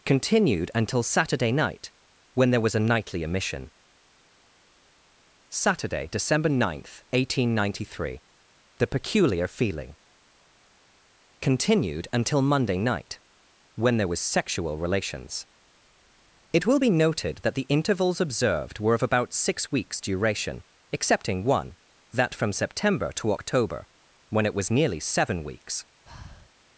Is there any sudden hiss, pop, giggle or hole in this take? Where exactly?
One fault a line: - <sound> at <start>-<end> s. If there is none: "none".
- breath at 26.1-26.5 s